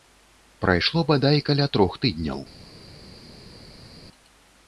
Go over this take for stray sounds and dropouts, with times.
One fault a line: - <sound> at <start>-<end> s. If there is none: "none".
none